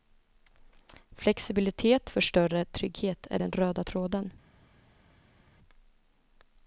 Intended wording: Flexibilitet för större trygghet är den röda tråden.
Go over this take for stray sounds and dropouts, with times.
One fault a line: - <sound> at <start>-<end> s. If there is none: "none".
none